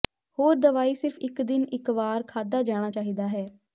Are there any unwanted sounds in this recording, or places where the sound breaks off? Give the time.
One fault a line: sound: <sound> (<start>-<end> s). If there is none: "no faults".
no faults